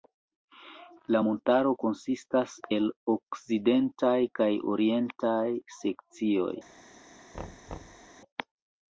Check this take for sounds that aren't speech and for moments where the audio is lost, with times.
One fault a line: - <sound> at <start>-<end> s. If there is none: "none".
- thud at 7.3-8.1 s